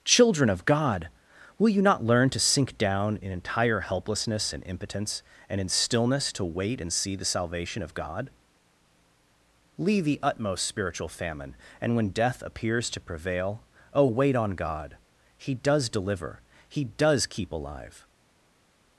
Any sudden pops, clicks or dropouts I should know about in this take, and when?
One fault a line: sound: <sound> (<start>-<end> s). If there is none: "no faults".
no faults